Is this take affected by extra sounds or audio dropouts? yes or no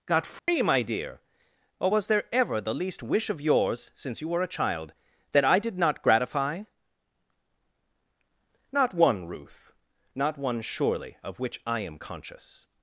yes